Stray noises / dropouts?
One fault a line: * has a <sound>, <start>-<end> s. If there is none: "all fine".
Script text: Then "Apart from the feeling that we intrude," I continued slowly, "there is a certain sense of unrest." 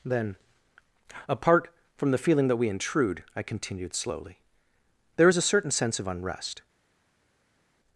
all fine